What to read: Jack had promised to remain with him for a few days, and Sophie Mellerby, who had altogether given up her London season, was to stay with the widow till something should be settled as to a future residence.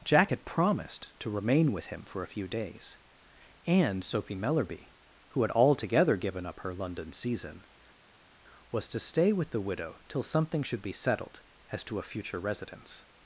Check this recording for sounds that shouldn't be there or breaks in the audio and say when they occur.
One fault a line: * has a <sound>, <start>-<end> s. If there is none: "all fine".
all fine